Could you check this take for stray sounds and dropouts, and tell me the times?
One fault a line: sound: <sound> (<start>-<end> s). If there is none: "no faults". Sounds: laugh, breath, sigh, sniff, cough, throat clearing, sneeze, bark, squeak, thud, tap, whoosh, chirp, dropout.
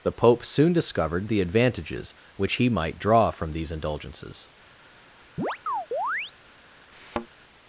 sound: chirp (5.4-6.3 s)
sound: thud (6.9-7.3 s)